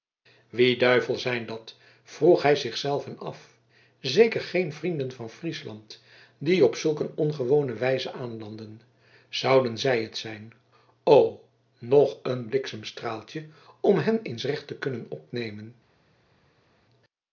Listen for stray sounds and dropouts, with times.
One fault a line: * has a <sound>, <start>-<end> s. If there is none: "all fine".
all fine